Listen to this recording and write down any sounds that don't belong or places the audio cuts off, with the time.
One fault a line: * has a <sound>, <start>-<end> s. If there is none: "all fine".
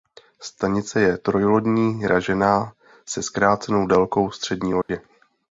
* has a dropout, 4.8-4.9 s